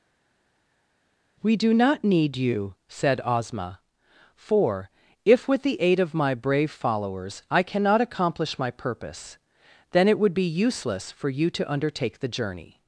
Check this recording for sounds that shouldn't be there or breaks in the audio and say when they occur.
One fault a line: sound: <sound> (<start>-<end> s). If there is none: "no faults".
no faults